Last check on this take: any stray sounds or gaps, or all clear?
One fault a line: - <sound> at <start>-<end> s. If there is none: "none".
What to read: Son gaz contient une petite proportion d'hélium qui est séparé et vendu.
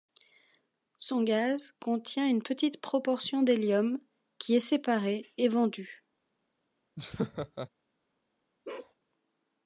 - laugh at 7.0-7.7 s
- bark at 8.6-8.9 s